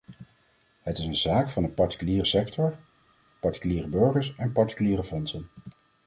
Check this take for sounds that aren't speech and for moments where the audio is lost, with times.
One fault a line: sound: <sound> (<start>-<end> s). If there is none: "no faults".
no faults